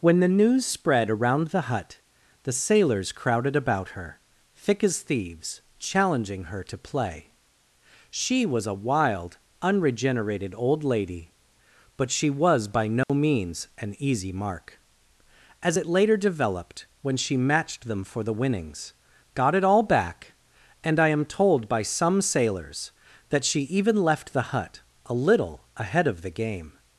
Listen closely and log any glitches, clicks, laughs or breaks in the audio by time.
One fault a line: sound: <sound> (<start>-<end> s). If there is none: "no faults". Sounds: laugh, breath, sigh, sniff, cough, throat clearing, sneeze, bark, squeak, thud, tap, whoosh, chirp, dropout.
sound: dropout (13.0-13.1 s)